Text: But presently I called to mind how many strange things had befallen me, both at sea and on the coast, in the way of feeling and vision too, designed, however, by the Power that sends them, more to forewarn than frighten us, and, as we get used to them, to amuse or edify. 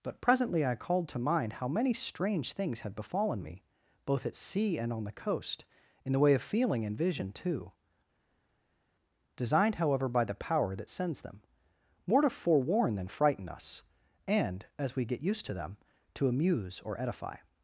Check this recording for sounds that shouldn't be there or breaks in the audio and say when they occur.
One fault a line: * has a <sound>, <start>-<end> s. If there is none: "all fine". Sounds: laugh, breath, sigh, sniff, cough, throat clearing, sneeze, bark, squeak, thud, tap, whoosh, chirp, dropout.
all fine